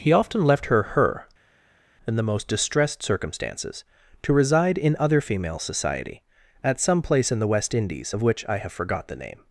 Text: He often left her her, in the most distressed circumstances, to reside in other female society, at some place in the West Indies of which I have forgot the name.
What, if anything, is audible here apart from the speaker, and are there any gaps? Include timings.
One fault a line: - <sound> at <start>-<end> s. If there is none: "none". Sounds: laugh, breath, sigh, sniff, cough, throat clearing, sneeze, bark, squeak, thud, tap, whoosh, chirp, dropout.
none